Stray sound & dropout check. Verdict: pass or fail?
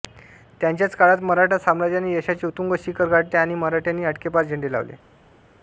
pass